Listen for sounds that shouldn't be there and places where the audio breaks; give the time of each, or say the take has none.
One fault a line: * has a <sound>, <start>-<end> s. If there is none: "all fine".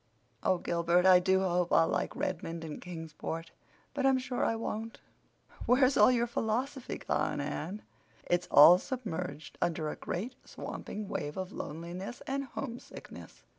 all fine